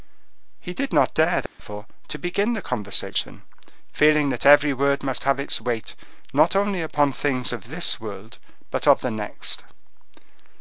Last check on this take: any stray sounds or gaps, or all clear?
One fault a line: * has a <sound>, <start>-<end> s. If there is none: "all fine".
* has a dropout, 1.5-1.6 s